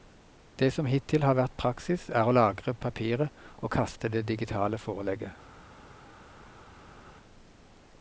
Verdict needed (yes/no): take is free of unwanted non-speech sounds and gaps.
yes